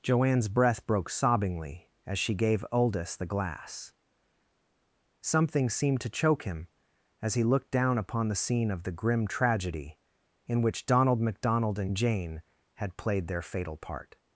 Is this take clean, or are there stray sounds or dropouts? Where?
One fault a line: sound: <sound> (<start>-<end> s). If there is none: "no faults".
no faults